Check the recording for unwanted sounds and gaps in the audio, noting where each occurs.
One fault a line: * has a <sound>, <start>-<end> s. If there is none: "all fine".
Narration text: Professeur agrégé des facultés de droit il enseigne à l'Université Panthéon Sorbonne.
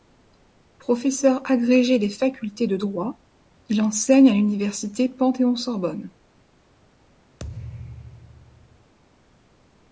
* has a thud, 7.4-8.9 s